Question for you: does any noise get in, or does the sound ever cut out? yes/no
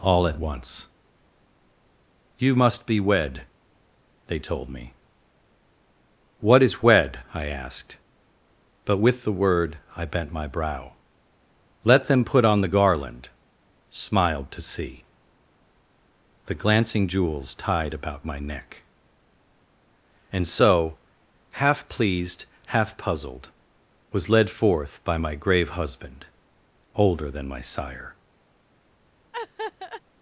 yes